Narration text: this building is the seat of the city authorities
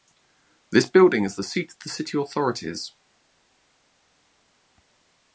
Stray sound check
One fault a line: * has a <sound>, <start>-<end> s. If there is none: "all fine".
all fine